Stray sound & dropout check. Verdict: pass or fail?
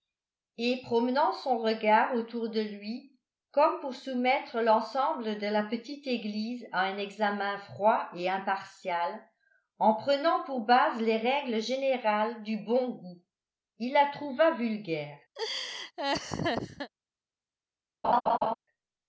fail